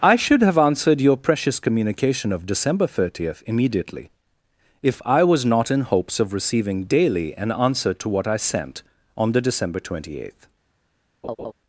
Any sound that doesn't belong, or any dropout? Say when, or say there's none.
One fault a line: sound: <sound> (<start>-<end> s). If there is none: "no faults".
sound: laugh (11.2-11.5 s)